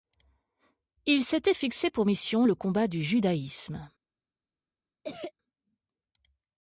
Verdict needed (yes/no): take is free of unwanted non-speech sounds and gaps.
no